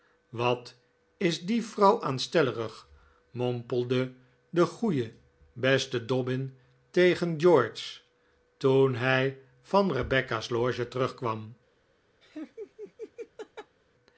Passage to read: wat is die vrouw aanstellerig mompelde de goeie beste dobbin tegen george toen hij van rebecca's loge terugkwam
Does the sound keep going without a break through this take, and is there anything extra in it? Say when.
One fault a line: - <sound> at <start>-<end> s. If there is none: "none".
- laugh at 12.2-13.8 s